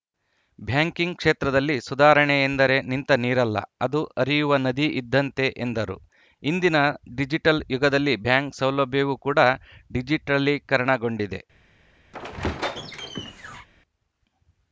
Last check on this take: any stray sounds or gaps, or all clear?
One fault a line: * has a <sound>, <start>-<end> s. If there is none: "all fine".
* has a squeak, 12.1-13.7 s